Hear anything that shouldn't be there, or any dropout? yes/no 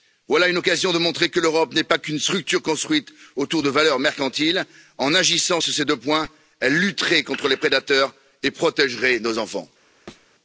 yes